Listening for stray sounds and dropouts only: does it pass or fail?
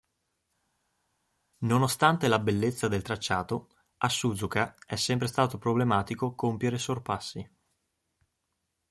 pass